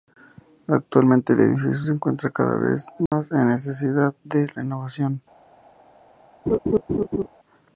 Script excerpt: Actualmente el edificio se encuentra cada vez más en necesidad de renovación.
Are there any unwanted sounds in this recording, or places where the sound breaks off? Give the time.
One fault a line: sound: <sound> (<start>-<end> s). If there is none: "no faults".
sound: dropout (3.1-3.1 s)
sound: laugh (6.5-7.3 s)